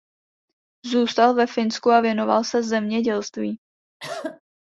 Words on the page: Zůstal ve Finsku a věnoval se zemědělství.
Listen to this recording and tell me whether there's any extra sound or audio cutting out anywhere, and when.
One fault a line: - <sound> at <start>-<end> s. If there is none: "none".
- cough at 4.0-4.4 s